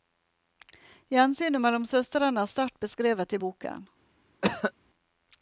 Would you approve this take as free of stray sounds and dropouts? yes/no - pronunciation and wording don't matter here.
no